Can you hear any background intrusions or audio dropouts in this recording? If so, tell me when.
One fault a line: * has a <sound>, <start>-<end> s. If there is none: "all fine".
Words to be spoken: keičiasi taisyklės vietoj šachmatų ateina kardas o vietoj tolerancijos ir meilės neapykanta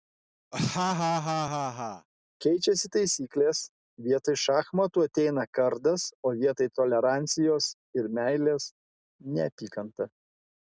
* has a laugh, 0.5-2.1 s